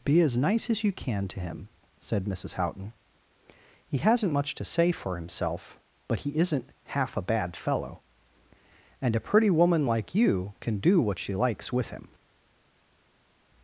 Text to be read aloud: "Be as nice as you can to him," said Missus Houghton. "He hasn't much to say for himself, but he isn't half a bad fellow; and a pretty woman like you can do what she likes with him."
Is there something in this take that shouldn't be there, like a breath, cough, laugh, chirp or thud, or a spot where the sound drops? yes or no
no